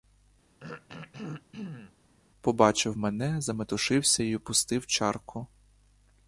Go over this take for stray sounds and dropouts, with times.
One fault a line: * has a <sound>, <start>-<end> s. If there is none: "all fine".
* has a throat clearing, 0.6-1.9 s